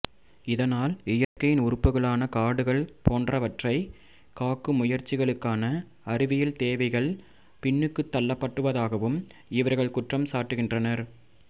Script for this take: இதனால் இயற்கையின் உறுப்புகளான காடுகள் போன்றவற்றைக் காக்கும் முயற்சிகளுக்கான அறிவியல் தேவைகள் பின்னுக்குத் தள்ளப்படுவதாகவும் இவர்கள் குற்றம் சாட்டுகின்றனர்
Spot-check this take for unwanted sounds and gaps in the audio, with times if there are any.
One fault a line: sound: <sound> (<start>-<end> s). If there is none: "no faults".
sound: dropout (1.2-1.4 s)